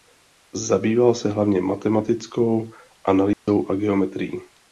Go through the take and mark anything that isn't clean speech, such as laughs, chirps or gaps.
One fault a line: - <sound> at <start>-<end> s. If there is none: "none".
- dropout at 3.3-3.5 s